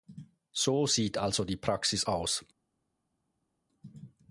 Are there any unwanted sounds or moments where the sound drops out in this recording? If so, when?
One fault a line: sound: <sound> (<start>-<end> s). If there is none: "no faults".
no faults